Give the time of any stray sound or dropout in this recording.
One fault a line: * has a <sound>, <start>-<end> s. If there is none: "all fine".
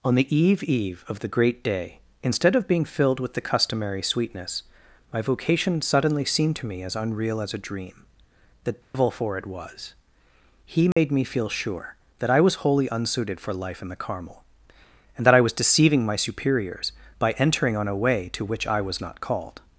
* has a dropout, 8.8-8.9 s
* has a dropout, 10.9-11.0 s